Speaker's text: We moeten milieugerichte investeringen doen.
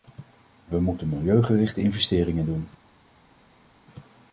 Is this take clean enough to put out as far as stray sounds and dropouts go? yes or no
yes